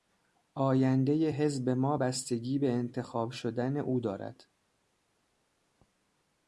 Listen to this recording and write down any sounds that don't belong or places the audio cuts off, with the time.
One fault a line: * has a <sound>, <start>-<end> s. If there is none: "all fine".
all fine